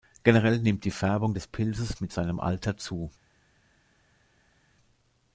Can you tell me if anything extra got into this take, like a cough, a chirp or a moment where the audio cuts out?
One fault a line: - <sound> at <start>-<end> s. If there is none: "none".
none